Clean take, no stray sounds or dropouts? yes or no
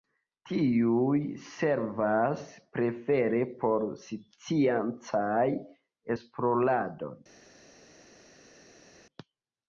yes